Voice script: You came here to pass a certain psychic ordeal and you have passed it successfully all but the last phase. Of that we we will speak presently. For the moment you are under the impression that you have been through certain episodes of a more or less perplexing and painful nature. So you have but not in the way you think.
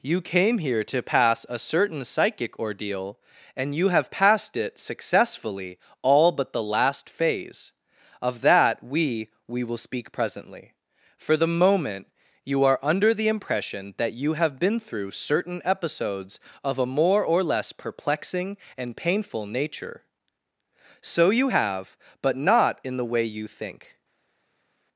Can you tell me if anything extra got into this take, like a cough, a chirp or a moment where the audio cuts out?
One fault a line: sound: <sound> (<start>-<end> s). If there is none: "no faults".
no faults